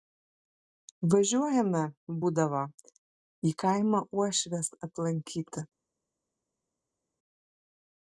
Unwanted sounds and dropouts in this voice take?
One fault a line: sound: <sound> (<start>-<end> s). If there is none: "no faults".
no faults